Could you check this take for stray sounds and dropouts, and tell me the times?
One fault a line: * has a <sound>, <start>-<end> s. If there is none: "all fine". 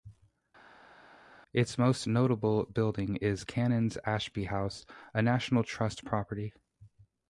all fine